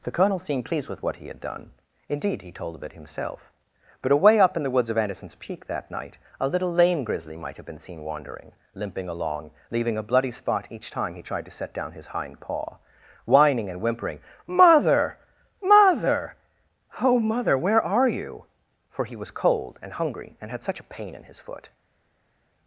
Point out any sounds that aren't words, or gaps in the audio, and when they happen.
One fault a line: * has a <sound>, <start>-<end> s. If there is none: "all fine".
all fine